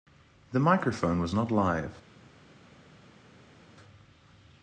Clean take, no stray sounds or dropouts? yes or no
yes